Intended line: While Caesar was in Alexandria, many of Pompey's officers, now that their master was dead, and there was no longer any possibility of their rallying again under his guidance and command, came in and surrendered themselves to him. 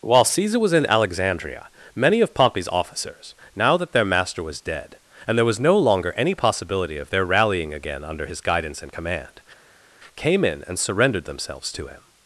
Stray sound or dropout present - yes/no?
no